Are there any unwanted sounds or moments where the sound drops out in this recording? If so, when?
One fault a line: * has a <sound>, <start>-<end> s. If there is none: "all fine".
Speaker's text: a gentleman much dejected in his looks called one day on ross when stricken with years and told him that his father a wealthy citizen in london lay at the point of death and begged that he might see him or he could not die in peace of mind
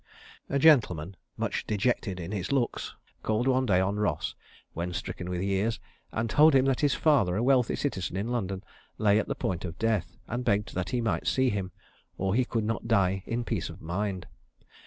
all fine